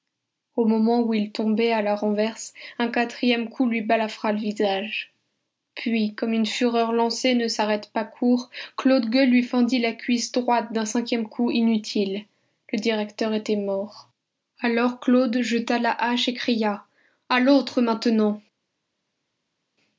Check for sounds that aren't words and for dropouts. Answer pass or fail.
pass